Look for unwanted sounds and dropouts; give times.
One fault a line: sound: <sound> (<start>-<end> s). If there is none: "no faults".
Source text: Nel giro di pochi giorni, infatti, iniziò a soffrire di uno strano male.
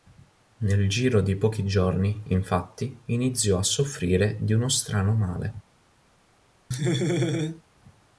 sound: laugh (6.7-7.6 s)